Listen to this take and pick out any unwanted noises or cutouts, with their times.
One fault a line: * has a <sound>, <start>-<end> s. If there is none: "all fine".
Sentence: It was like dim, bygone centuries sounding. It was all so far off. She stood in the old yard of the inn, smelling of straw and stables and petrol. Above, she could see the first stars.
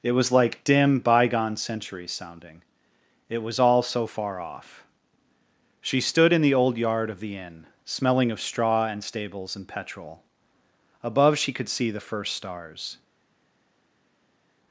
all fine